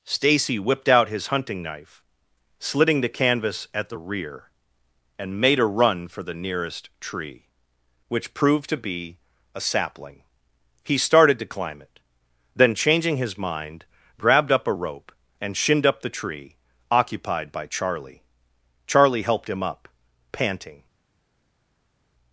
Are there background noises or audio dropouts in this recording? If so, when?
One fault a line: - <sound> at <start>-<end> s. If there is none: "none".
none